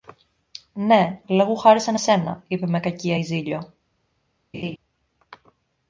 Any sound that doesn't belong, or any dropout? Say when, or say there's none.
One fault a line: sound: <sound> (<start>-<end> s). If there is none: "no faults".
sound: laugh (4.5-4.8 s)